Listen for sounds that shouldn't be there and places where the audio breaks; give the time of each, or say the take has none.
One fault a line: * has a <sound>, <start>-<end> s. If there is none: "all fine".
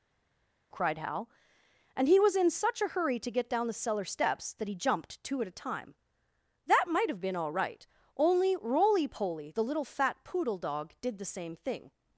all fine